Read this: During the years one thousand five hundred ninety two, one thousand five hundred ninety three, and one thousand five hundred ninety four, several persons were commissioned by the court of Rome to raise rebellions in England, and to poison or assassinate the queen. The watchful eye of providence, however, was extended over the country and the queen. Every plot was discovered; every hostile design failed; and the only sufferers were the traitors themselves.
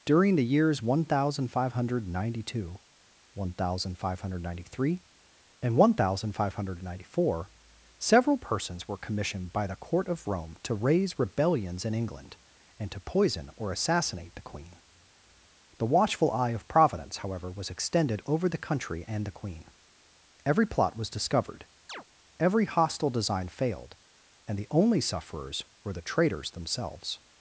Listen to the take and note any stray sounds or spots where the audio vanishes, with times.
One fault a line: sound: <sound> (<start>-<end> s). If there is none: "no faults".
sound: chirp (21.9-22.0 s)